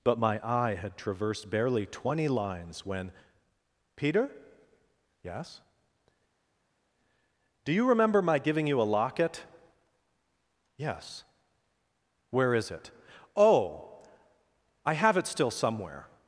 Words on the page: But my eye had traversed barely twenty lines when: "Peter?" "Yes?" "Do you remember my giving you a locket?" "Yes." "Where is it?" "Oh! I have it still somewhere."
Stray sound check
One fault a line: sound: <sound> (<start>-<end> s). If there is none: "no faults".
no faults